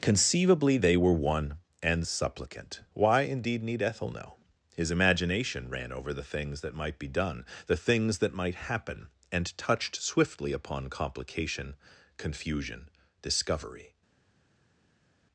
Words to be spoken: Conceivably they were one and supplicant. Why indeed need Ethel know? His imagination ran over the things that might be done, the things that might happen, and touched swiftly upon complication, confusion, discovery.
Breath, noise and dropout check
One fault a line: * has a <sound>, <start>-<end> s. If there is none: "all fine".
all fine